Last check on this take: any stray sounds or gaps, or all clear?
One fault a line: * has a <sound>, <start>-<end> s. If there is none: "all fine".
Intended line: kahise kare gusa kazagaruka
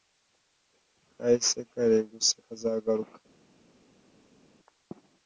all fine